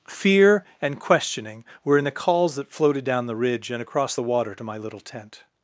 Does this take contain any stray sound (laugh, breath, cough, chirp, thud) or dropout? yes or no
no